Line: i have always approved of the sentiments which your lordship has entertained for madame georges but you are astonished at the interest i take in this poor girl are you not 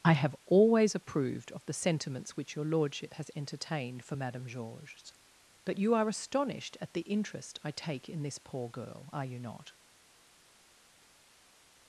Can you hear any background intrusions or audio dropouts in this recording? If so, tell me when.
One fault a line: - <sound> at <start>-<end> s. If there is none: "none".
none